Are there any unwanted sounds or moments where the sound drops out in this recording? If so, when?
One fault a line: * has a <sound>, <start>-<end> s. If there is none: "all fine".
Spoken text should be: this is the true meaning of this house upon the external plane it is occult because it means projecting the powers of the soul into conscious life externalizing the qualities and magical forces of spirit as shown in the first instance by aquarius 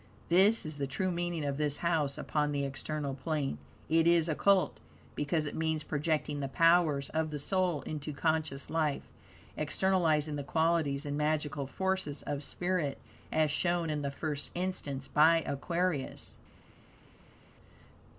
all fine